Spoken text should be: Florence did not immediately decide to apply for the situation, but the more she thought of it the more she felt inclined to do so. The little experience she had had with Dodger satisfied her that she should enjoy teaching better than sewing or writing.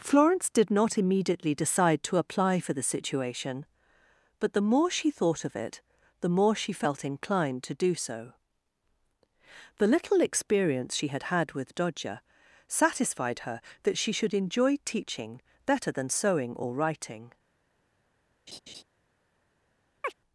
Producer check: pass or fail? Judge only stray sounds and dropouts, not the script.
fail